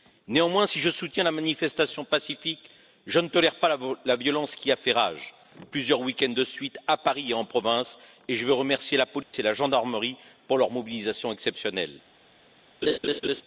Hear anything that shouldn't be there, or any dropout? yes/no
yes